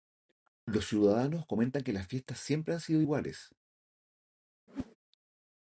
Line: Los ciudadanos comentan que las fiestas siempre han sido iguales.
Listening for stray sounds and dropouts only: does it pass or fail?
fail